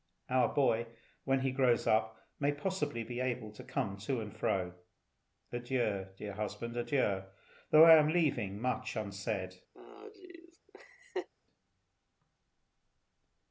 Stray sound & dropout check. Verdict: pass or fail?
fail